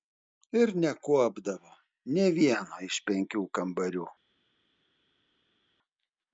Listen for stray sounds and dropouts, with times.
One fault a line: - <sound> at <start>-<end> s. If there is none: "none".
none